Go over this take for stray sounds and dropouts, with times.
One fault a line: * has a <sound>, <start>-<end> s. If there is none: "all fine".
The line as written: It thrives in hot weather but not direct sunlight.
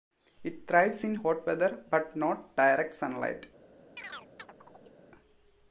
* has a chirp, 4.0-5.0 s